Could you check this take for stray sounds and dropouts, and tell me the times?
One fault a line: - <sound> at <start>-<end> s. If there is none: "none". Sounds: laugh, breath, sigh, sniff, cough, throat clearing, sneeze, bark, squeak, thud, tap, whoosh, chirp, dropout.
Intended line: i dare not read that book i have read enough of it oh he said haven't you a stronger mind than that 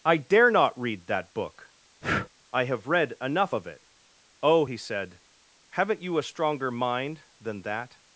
- breath at 2.0-2.3 s